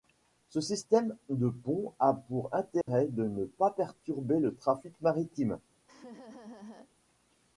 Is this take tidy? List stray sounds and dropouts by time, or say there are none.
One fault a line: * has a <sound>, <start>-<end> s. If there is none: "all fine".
* has a dropout, 2.8-2.9 s
* has a laugh, 5.9-6.9 s